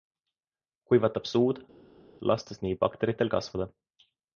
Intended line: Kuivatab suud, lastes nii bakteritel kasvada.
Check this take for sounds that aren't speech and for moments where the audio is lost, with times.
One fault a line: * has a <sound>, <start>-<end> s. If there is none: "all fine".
all fine